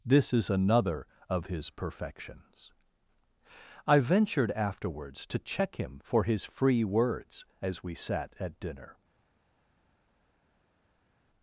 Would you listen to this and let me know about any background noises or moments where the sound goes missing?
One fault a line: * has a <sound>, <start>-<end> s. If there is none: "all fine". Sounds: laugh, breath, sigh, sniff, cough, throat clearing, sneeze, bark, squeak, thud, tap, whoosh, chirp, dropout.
all fine